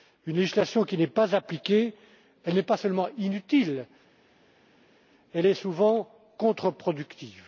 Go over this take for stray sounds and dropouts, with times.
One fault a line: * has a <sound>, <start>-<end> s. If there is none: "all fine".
all fine